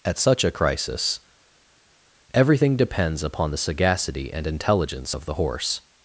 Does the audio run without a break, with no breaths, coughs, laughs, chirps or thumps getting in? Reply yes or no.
yes